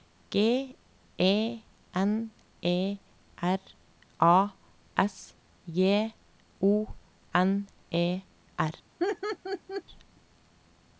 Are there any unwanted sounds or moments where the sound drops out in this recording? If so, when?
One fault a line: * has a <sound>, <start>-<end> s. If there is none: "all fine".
* has a laugh, 9.0-9.8 s